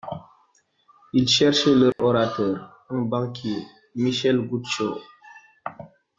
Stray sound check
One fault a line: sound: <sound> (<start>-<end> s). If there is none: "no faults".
sound: dropout (1.9-2.0 s)